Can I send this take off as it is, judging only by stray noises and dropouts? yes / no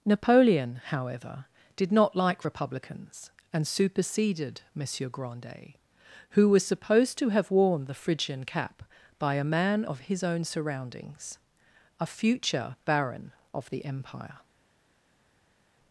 yes